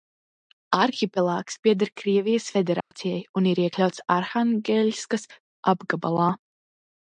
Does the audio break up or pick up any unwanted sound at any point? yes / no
yes